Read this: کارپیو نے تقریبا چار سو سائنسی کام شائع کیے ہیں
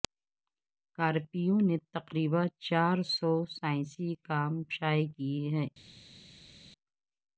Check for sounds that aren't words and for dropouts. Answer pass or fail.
pass